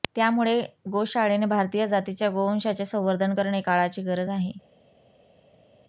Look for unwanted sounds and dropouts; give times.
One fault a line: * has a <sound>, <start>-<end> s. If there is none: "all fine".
all fine